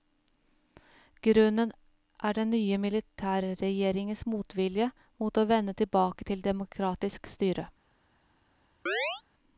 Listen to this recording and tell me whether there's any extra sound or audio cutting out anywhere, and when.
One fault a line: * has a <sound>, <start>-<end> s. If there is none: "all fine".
* has a chirp, 8.9-9.2 s